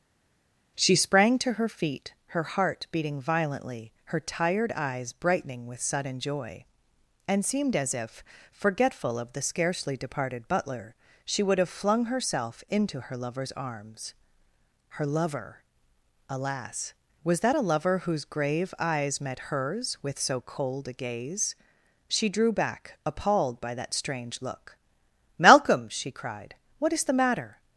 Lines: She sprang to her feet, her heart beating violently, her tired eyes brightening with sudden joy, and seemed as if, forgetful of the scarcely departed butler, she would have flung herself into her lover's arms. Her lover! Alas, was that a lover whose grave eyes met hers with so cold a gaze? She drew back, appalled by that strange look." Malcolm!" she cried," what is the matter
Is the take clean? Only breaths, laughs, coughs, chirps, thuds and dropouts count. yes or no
yes